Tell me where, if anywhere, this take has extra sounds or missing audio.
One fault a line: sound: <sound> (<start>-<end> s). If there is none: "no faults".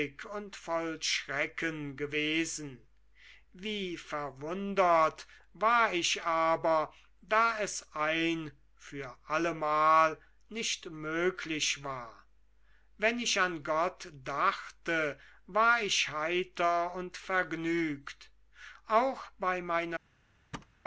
sound: thud (20.5-20.8 s)